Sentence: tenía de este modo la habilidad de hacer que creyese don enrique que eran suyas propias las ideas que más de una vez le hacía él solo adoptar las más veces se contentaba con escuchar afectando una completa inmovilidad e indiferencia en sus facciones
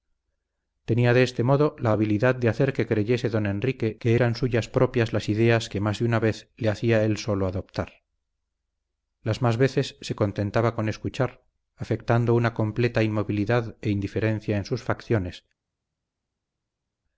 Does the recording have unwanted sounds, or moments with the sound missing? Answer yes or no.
no